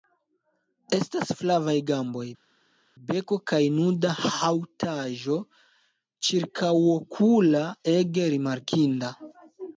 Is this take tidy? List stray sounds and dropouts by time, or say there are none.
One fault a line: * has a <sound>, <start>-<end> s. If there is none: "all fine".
all fine